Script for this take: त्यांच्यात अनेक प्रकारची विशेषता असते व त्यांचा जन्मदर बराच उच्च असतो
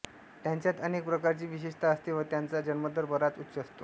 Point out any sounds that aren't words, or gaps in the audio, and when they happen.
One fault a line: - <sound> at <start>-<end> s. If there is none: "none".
none